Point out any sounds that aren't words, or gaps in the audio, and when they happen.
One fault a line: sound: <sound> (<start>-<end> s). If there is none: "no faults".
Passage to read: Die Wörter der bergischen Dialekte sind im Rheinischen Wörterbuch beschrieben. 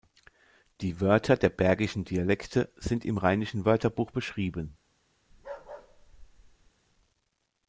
sound: bark (5.3-6.7 s)